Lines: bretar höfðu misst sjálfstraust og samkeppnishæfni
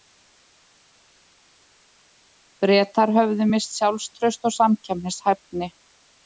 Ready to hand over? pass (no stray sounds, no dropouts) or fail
pass